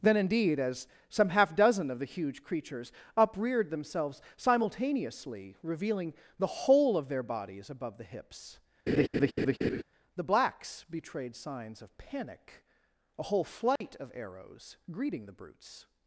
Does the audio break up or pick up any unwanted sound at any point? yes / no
yes